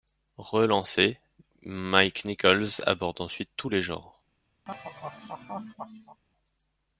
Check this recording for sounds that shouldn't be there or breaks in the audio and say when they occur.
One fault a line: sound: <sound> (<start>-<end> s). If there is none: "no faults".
sound: laugh (4.7-6.2 s)